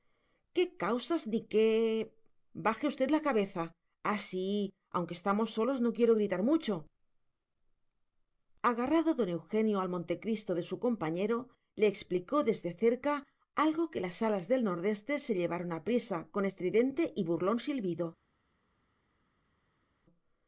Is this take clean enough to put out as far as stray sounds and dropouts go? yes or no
yes